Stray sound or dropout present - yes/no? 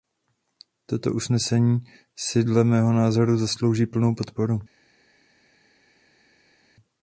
no